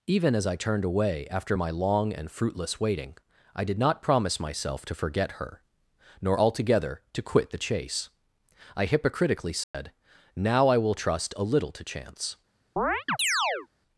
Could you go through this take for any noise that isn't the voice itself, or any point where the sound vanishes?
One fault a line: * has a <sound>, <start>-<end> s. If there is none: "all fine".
* has a dropout, 9.6-9.7 s
* has a chirp, 12.8-13.7 s